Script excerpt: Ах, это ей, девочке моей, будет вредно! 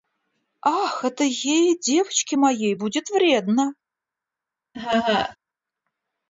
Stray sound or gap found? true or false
true